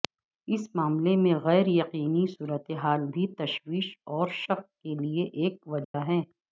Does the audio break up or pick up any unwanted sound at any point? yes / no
yes